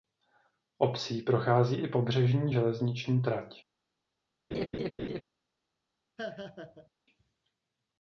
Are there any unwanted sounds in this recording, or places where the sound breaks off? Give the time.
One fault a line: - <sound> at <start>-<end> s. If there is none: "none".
- laugh at 4.5-5.2 s
- laugh at 6.2-6.9 s